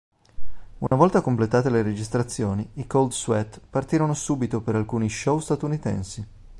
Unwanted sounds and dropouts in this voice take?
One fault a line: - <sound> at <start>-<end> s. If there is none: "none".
- dropout at 0.9-0.9 s